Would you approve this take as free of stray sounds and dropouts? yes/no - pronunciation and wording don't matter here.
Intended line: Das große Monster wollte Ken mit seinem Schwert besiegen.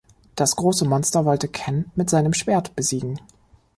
yes